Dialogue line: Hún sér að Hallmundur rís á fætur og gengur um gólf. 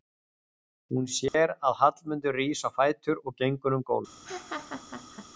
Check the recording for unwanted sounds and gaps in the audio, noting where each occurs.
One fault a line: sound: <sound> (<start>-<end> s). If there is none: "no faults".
sound: dropout (1.3-1.3 s)
sound: laugh (4.2-5.3 s)